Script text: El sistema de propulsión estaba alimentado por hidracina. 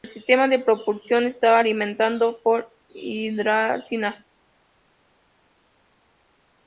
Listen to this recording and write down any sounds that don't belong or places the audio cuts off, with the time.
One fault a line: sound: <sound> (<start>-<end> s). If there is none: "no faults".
no faults